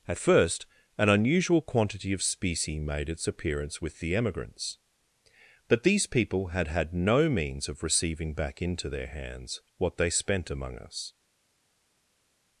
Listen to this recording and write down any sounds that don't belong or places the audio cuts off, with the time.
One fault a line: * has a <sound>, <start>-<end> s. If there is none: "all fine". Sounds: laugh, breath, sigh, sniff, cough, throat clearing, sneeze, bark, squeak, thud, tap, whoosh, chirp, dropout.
all fine